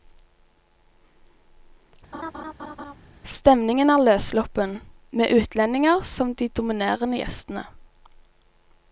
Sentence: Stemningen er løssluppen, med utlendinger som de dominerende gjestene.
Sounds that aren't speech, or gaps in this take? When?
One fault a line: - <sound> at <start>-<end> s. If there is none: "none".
- laugh at 2.1-2.9 s